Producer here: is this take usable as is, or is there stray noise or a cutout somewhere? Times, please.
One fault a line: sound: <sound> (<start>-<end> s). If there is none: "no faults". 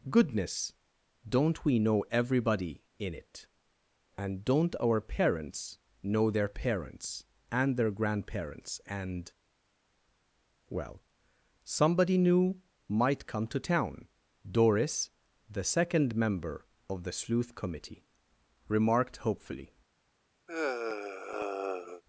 sound: sigh (20.5-22.0 s)